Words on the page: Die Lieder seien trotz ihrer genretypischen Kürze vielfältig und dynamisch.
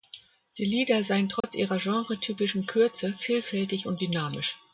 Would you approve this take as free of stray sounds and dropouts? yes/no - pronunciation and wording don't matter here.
no